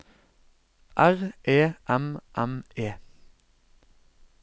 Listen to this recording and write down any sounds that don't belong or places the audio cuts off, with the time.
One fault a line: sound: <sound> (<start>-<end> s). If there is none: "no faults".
no faults